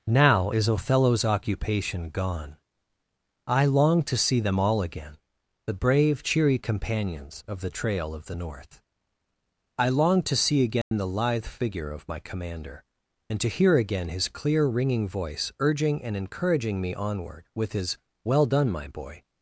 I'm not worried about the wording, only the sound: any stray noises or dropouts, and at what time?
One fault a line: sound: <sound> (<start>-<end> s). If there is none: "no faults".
sound: dropout (10.8-10.9 s)